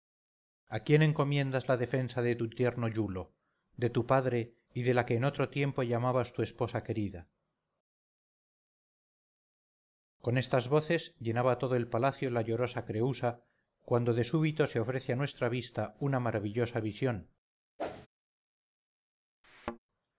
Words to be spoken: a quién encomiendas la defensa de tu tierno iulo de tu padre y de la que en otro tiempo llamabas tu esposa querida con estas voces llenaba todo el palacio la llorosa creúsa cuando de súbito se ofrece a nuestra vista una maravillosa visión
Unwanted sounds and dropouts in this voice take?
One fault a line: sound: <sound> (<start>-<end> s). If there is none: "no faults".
sound: whoosh (17.8-18.1 s)
sound: thud (19.4-19.8 s)